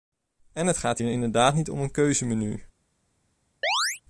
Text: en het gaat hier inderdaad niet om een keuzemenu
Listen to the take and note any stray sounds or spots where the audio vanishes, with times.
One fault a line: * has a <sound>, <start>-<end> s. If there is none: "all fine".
* has a chirp, 3.6-4.0 s